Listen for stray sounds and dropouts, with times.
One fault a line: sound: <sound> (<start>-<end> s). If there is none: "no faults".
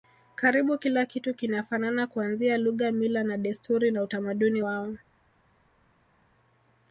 no faults